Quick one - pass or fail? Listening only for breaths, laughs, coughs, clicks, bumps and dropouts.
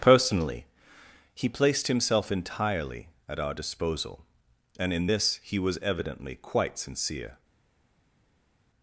pass